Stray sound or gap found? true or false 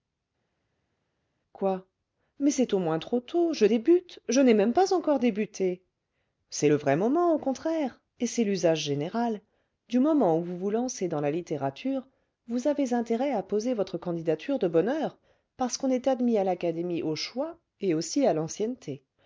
false